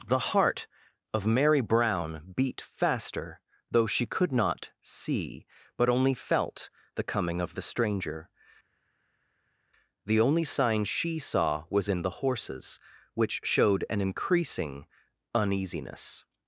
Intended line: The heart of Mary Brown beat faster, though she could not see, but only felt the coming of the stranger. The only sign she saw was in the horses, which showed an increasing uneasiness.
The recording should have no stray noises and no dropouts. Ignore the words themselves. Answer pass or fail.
pass